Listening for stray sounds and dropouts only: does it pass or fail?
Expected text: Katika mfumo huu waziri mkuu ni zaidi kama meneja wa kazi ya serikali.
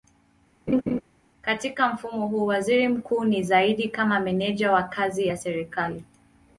fail